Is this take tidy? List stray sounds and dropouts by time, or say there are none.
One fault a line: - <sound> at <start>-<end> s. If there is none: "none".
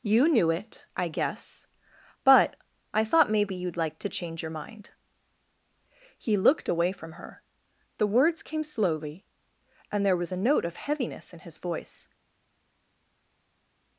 none